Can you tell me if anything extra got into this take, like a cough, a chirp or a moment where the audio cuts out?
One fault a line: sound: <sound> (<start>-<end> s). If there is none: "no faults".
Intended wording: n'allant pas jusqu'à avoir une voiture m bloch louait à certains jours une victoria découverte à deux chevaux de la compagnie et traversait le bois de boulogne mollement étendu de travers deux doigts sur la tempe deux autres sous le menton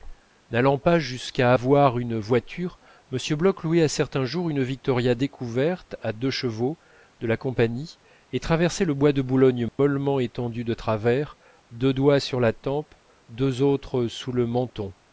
sound: dropout (9.7-9.8 s)